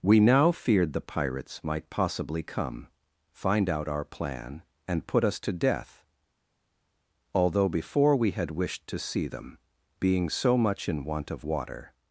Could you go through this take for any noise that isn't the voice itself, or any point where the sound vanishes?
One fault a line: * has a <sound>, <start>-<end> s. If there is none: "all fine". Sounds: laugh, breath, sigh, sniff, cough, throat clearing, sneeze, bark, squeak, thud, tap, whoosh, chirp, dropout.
all fine